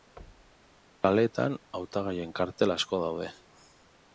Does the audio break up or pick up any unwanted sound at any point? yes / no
yes